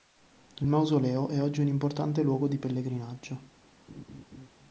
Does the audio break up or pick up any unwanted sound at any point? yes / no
yes